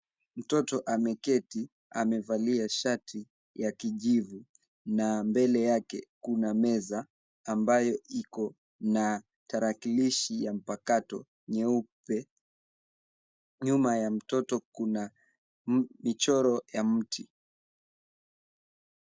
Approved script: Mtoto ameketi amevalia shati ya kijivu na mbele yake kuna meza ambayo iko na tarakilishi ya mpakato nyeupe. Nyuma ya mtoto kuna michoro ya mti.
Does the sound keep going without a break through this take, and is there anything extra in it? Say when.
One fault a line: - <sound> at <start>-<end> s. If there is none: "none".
none